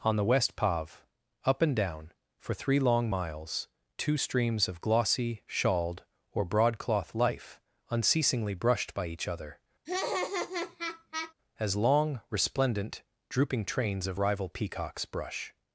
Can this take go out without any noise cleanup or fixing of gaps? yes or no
no